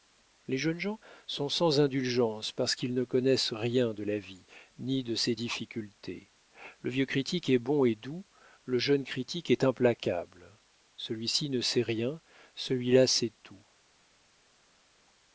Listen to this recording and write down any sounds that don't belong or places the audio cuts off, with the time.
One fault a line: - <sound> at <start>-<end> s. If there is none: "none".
none